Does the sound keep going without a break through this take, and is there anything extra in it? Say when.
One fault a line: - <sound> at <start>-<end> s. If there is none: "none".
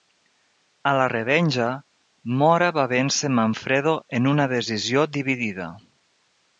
none